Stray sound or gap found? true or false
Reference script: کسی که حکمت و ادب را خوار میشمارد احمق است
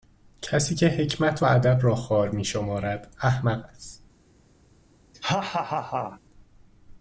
true